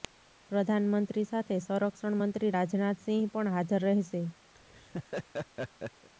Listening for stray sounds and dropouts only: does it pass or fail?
fail